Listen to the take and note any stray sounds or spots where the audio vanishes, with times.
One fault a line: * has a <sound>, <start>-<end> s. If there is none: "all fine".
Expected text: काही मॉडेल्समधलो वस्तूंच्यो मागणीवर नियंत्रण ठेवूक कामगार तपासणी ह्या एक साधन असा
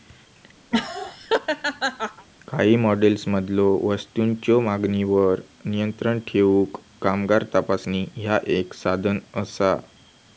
* has a laugh, 0.7-2.3 s